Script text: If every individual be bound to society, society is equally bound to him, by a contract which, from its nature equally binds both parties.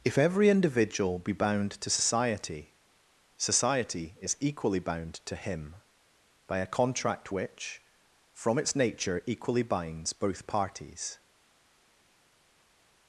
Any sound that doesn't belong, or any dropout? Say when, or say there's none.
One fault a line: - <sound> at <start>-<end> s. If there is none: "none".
none